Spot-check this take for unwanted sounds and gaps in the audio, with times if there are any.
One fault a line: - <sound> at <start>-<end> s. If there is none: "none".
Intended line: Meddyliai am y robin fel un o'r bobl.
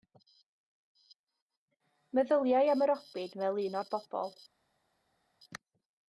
none